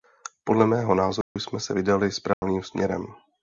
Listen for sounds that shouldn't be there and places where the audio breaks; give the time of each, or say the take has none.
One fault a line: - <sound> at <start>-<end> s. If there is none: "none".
- dropout at 1.2-1.4 s
- dropout at 2.3-2.4 s